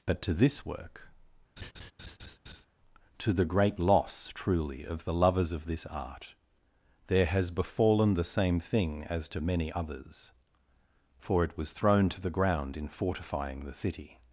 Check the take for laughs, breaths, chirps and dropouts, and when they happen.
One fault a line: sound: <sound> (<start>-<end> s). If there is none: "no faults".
sound: laugh (1.6-2.7 s)